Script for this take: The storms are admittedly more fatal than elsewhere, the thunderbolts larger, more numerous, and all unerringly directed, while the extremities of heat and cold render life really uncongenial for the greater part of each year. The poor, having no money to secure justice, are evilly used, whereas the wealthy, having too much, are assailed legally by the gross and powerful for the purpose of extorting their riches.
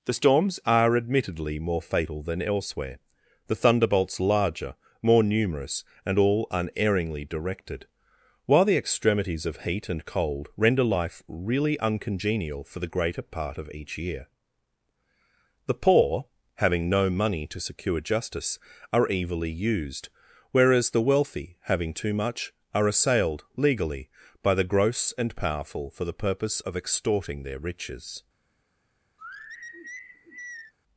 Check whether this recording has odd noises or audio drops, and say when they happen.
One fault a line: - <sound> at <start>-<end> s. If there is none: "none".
- sigh at 29.2-30.7 s